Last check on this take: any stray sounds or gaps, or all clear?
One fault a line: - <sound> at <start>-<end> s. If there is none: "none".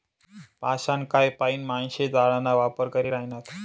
none